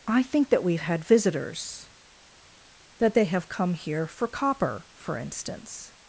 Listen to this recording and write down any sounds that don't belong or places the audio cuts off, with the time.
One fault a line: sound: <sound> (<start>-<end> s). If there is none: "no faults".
no faults